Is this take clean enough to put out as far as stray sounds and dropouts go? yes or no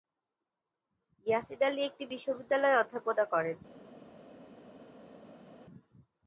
yes